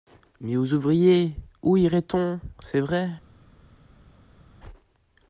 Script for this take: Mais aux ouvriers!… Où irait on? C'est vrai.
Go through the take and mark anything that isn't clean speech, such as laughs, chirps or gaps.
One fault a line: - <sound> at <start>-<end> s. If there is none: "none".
none